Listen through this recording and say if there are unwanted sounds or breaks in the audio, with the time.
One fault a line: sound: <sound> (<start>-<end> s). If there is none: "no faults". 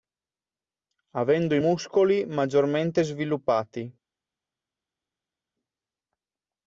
no faults